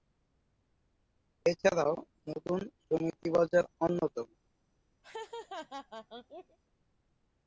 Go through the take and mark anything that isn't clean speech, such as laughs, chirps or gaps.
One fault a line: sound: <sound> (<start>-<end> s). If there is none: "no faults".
sound: laugh (5.0-6.6 s)